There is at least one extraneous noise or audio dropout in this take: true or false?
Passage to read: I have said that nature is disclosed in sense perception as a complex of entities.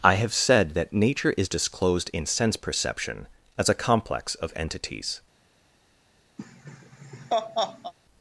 true